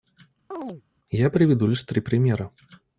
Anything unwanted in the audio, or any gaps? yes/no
yes